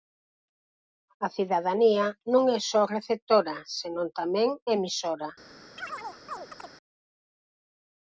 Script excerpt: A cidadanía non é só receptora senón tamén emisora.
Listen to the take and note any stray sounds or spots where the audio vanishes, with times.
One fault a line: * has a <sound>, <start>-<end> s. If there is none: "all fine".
* has a chirp, 5.8-6.7 s